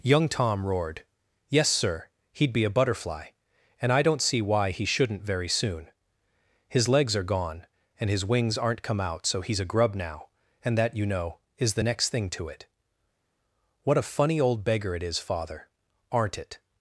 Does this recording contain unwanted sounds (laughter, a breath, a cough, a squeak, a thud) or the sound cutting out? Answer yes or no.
no